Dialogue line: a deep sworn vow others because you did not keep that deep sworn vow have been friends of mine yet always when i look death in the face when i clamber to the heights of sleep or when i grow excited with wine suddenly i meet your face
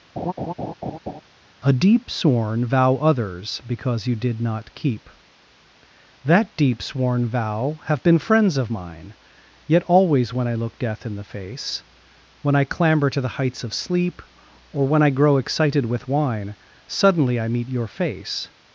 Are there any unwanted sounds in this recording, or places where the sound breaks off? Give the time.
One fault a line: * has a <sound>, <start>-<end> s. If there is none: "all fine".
* has a laugh, 0.2-1.2 s